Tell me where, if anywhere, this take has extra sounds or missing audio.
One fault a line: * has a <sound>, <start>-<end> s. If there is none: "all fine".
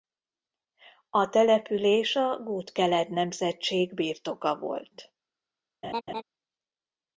* has a laugh, 5.8-6.2 s